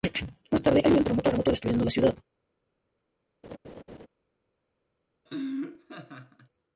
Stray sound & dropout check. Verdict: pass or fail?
fail